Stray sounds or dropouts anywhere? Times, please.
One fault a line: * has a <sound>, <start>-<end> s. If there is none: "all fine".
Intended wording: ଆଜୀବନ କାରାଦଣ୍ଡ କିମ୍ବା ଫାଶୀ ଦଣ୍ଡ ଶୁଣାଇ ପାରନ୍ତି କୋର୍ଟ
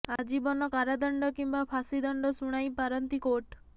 * has a dropout, 0.2-0.2 s